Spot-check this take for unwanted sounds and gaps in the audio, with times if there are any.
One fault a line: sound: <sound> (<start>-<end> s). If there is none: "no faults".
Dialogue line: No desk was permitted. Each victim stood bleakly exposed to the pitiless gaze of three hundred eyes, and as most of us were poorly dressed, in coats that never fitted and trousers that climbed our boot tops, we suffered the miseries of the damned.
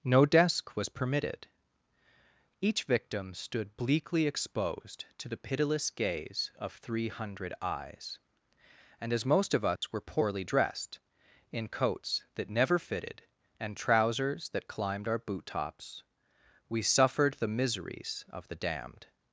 sound: dropout (9.8-9.8 s)